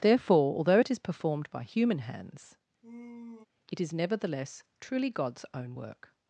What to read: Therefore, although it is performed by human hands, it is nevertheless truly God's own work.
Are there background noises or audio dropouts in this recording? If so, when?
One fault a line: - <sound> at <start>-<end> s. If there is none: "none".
- sigh at 2.8-3.5 s